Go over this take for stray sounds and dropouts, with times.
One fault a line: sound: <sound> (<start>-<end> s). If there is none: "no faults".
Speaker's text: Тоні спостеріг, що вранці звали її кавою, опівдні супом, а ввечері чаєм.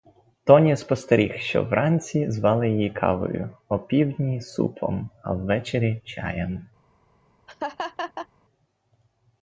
sound: laugh (7.5-8.3 s)